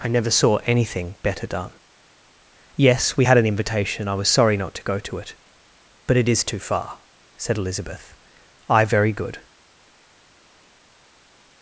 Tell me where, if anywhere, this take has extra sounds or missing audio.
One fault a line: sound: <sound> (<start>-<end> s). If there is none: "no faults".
no faults